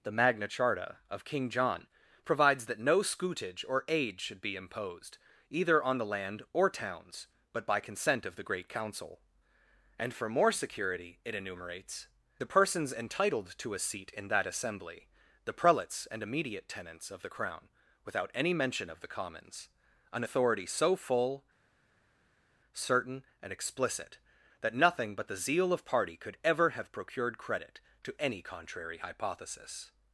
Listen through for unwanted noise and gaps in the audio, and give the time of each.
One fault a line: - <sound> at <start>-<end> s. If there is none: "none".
none